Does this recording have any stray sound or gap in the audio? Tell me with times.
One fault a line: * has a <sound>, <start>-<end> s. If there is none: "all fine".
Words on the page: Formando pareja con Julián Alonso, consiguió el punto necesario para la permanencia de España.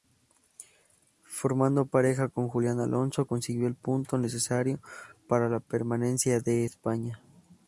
all fine